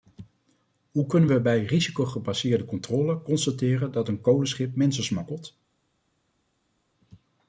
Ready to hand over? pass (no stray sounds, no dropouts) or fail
pass